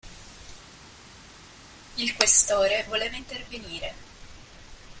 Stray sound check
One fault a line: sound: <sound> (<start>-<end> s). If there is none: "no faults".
no faults